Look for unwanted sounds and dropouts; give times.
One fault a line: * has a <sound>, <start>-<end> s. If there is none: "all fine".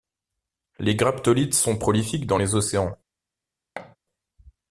* has a thud, 3.8-4.0 s